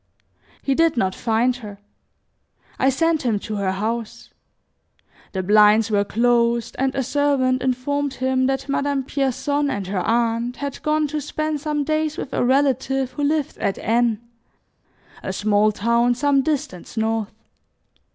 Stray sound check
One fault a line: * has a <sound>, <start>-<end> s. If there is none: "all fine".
all fine